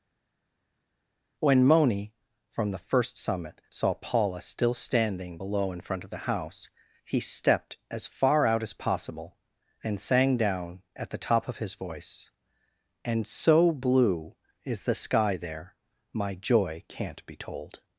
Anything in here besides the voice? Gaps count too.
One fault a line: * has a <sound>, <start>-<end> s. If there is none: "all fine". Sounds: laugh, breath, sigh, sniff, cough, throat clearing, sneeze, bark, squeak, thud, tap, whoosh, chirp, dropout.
all fine